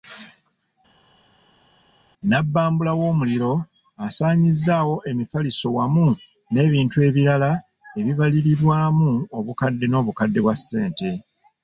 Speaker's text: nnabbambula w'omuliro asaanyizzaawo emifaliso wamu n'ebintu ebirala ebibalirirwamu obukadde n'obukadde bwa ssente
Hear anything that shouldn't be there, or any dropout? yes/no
no